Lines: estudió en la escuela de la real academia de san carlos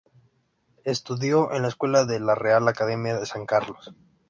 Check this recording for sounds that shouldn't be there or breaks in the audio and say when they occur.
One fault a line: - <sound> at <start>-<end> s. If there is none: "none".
none